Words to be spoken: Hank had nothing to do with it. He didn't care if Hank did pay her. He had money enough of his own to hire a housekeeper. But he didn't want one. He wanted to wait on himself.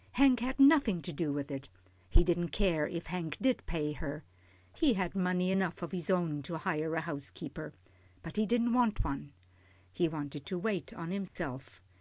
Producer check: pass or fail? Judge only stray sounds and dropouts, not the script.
fail